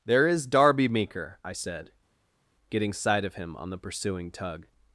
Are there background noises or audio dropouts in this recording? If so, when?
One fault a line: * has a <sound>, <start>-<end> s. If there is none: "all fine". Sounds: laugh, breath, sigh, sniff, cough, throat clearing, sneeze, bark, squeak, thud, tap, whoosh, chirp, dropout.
all fine